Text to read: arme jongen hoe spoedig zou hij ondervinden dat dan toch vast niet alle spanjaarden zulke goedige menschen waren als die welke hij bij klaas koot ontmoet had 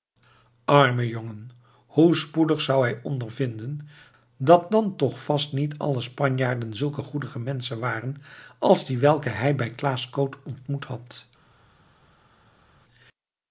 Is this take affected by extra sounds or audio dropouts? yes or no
no